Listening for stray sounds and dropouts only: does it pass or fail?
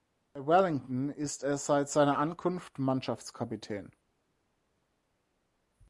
pass